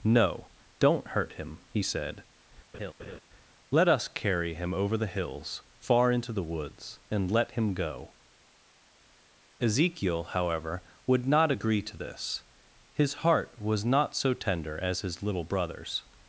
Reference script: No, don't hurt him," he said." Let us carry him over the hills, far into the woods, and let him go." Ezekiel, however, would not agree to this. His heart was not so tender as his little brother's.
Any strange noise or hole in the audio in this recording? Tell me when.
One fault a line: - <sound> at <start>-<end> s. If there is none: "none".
- laugh at 2.7-3.2 s